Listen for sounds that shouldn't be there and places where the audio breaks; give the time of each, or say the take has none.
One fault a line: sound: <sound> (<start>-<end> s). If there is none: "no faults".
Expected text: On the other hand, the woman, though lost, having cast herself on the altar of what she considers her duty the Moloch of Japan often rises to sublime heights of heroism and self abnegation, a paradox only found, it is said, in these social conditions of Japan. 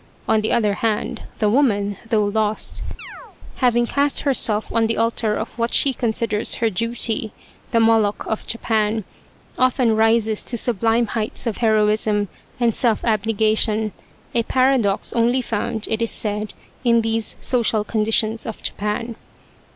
sound: chirp (3.0-3.4 s)